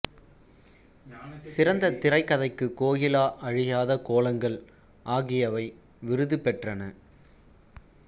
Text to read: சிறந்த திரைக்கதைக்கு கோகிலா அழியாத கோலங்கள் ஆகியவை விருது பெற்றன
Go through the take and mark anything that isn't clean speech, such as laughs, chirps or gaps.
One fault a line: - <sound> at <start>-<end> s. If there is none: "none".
none